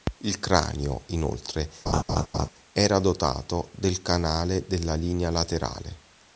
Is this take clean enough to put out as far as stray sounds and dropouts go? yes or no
no